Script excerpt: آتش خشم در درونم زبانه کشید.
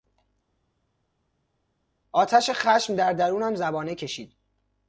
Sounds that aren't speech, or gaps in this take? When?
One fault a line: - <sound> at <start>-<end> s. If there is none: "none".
none